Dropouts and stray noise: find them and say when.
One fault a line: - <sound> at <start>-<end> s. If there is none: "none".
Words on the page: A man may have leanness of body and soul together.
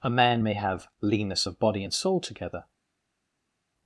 none